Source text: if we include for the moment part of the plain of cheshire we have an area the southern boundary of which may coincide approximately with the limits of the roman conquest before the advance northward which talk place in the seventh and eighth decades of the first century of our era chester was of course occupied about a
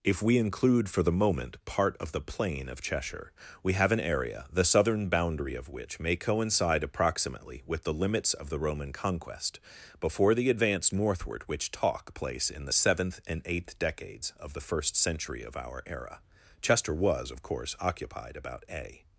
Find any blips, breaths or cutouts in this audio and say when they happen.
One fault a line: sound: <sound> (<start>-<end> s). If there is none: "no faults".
no faults